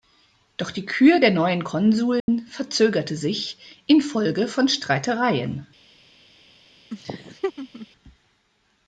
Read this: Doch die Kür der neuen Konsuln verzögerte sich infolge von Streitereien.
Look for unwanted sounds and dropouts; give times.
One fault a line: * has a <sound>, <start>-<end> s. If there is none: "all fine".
* has a dropout, 2.2-2.3 s
* has a laugh, 6.9-7.9 s